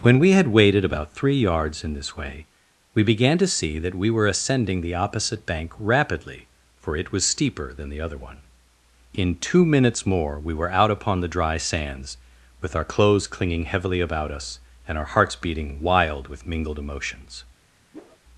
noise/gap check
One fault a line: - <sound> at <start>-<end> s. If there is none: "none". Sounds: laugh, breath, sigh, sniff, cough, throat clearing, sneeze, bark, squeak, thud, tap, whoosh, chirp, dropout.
- whoosh at 17.9-18.2 s